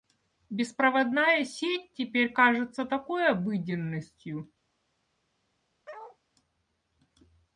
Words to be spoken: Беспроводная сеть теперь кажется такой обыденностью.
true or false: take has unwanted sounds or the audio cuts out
true